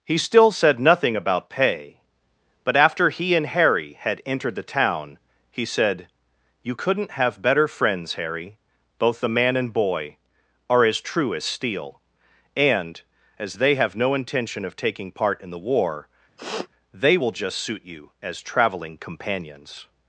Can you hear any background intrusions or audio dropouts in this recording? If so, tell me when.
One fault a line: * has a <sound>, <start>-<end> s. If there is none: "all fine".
* has a sniff, 16.4-16.7 s